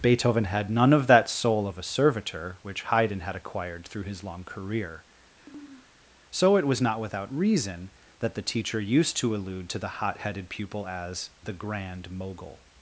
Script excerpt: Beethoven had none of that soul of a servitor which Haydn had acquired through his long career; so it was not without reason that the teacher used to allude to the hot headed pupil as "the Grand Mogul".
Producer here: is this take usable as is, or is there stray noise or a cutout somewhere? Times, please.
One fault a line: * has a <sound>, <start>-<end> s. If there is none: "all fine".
* has a sniff, 5.4-5.9 s